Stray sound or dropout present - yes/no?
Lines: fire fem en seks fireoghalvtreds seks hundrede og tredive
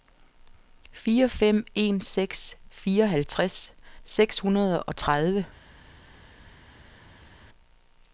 no